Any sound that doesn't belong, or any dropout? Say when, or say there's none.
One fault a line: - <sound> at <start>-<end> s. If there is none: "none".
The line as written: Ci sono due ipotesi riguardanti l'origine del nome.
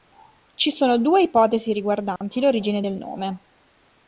- dropout at 2.2-2.2 s